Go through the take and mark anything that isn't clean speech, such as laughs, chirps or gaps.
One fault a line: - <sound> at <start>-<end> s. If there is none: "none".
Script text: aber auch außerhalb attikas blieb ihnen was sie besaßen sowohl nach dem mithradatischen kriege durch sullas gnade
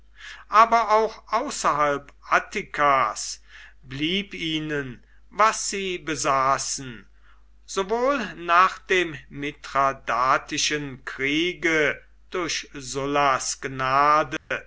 - dropout at 14.4-14.5 s